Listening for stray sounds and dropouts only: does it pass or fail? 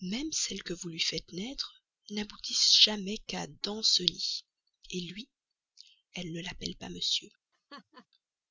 fail